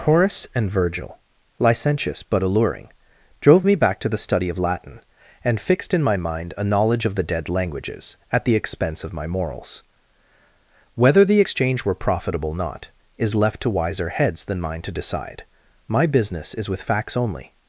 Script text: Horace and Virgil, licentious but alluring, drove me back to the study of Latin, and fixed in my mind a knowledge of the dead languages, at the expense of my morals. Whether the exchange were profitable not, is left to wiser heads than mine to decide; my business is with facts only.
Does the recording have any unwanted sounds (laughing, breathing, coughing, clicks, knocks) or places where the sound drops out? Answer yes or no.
no